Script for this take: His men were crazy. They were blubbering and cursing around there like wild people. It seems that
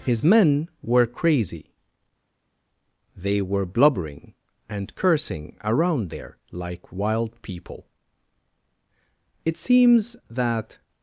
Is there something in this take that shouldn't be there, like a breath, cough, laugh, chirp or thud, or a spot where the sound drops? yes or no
no